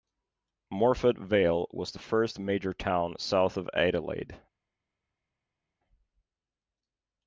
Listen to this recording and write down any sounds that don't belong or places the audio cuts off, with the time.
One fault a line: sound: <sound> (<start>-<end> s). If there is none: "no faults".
no faults